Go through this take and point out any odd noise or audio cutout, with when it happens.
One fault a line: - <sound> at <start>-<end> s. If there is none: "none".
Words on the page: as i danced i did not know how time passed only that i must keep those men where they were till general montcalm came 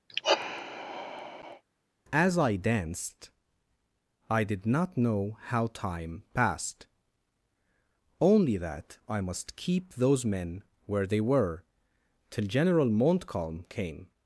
- sigh at 0.1-1.6 s